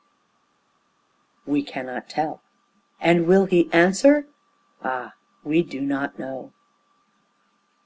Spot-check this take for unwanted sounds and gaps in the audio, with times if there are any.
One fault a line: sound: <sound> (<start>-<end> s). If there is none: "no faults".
no faults